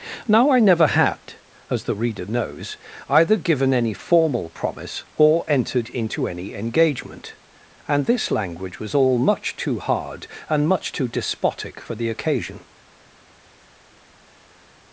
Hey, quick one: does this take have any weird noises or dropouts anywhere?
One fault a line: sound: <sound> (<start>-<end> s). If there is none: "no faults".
no faults